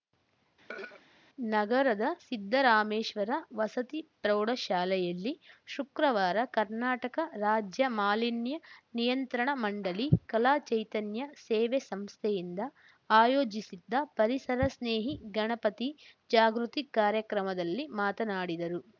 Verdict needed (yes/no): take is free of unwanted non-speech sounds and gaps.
no